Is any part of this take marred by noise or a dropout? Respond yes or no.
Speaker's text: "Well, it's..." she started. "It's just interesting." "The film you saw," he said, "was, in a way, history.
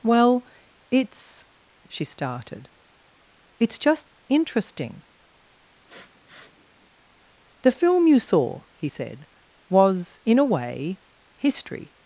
yes